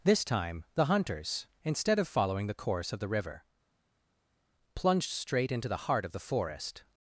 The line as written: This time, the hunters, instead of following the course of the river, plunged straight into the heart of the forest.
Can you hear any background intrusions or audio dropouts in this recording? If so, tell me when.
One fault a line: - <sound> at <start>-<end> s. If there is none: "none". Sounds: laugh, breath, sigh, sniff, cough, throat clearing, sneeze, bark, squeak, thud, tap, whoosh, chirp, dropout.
none